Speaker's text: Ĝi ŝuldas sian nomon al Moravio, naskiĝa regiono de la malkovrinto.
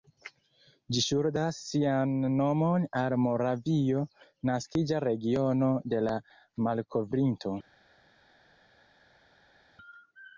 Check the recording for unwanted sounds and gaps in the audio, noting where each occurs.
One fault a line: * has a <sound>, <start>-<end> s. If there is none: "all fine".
all fine